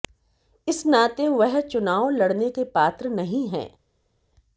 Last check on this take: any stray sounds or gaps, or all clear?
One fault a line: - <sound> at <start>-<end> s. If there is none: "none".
none